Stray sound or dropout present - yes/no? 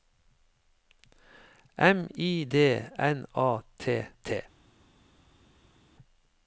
no